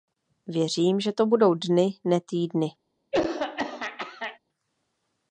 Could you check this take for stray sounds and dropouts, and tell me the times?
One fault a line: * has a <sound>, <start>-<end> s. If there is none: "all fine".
* has a throat clearing, 3.1-4.4 s